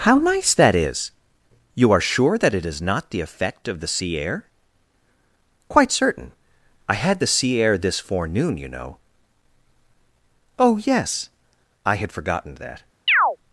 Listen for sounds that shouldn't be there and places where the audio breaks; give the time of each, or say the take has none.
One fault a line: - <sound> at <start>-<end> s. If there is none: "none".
- chirp at 13.1-13.4 s